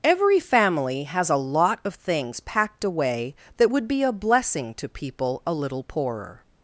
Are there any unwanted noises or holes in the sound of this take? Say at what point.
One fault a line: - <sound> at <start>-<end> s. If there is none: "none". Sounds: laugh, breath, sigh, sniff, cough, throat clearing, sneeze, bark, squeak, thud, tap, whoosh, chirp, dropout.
none